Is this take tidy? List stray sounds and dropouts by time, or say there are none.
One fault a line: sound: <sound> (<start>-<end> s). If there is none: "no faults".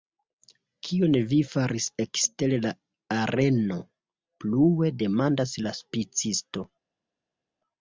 no faults